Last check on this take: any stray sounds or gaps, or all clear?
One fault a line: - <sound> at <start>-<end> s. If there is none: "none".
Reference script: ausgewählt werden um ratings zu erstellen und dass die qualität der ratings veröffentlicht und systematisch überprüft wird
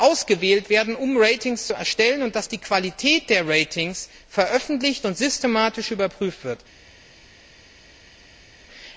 none